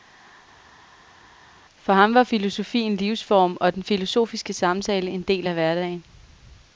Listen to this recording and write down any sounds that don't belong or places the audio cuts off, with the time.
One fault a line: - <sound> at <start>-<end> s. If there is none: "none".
none